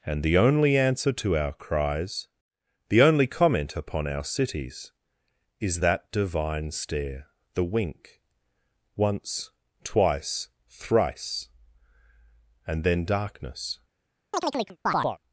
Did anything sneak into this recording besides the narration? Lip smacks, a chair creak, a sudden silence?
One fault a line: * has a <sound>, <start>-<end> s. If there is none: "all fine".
* has a chirp, 14.3-15.2 s